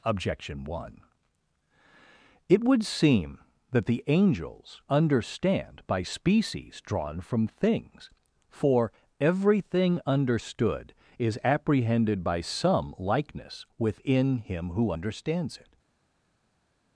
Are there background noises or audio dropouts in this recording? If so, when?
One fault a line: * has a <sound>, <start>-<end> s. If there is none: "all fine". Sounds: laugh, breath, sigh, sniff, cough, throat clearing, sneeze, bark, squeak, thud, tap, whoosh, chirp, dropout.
all fine